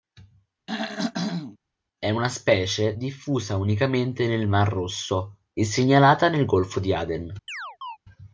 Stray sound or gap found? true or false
true